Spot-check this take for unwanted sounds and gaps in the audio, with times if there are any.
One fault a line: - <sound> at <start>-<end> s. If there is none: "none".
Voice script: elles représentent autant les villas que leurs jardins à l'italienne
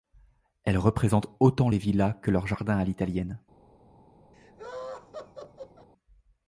- laugh at 4.3-5.9 s